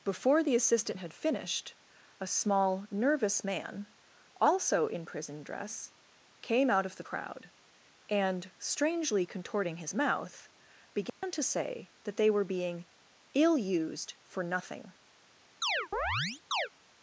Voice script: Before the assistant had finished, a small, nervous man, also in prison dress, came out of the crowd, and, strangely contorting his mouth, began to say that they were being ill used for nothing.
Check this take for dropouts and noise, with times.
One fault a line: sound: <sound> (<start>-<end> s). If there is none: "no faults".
sound: dropout (11.1-11.2 s)
sound: chirp (15.6-16.7 s)